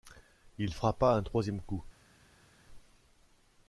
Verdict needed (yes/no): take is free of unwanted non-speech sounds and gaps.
yes